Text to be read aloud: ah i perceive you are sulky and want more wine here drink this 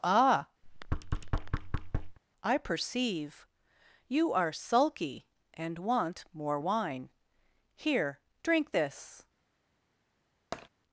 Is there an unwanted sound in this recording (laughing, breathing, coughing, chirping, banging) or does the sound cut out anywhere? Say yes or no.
yes